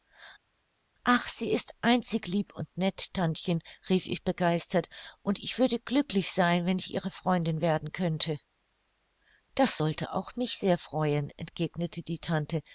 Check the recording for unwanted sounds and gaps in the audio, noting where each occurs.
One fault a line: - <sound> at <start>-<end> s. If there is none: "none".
none